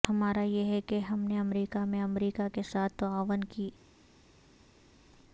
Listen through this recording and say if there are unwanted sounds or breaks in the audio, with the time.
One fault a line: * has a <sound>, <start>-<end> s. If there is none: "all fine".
all fine